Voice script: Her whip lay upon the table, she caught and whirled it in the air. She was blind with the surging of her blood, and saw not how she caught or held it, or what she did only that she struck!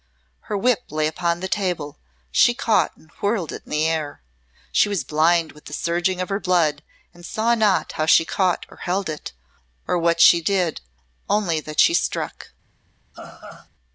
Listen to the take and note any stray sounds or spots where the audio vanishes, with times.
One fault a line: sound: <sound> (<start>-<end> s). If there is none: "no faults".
sound: laugh (13.1-13.7 s)